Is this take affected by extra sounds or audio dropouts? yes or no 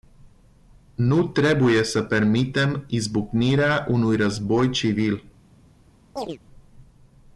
yes